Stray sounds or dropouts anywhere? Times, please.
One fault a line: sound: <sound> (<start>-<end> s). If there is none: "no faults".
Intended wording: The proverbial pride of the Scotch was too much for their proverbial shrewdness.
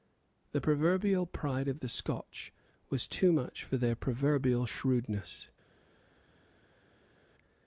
no faults